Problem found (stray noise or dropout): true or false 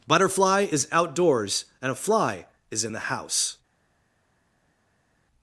false